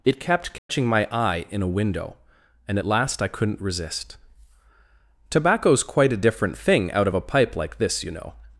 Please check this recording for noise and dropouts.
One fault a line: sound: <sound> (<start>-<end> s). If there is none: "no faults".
sound: dropout (0.6-0.7 s)